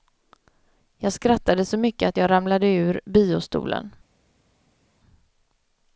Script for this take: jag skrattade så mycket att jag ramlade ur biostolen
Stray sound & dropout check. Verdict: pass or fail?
pass